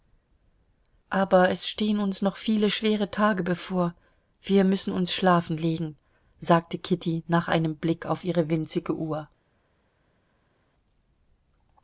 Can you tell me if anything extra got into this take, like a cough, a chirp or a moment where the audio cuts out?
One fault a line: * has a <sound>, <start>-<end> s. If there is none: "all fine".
all fine